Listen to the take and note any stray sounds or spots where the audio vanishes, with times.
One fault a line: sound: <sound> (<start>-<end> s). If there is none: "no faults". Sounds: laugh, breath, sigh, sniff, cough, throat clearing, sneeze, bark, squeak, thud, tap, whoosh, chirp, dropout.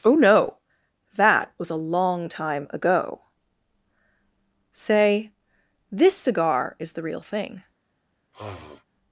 sound: sniff (8.3-8.8 s)